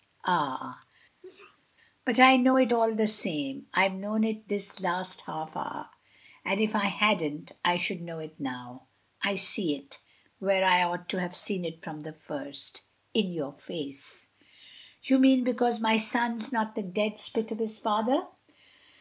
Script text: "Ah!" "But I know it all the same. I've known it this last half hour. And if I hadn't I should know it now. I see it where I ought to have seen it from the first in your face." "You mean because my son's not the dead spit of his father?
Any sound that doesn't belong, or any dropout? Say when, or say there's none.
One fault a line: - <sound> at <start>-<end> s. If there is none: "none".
- sneeze at 1.2-1.6 s